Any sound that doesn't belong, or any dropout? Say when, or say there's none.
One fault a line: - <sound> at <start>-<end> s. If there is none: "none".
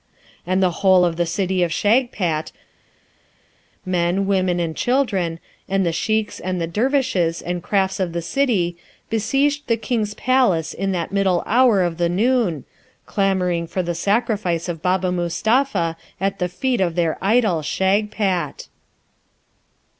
none